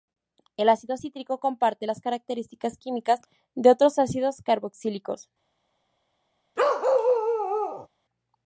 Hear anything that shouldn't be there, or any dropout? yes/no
yes